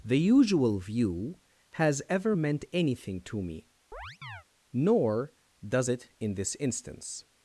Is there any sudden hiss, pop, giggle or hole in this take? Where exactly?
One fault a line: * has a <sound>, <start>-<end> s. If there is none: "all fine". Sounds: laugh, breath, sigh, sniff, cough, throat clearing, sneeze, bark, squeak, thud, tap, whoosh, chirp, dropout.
* has a chirp, 3.9-4.4 s